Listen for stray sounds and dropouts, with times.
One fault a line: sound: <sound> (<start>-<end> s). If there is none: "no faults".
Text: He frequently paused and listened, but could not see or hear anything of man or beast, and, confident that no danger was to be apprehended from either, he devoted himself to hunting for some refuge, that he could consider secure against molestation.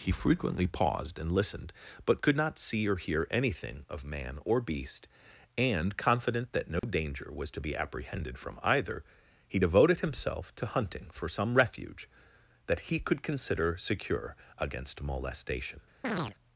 sound: dropout (6.8-6.8 s)
sound: chirp (16.0-16.3 s)